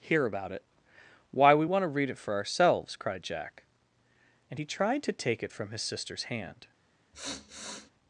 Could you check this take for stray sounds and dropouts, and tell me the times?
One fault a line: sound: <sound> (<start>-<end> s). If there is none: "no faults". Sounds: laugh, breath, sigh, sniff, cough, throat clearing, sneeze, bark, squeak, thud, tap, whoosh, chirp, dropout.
sound: sniff (7.1-7.9 s)